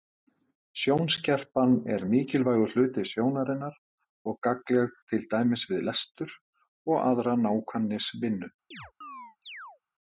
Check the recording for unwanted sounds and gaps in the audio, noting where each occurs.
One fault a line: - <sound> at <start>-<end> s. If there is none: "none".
- chirp at 8.7-9.8 s